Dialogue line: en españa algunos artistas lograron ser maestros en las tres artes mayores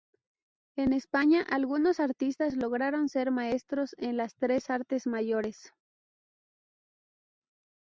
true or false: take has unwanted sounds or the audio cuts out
false